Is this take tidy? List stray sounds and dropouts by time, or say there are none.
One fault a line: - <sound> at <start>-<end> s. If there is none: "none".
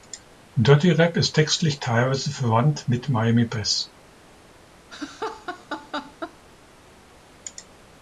- laugh at 4.9-6.4 s